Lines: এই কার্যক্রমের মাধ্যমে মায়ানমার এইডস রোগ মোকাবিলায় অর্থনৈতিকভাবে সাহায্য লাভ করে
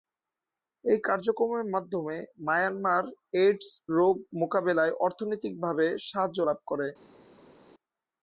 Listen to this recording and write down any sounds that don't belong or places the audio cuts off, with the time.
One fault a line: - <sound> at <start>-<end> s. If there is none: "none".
none